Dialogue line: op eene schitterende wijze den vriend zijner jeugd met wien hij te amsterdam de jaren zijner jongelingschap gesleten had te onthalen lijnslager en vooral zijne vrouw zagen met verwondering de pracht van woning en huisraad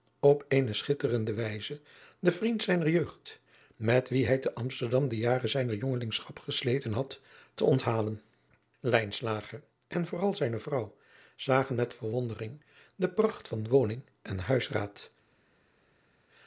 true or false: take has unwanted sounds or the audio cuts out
false